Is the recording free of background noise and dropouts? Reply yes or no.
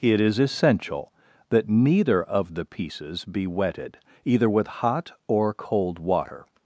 yes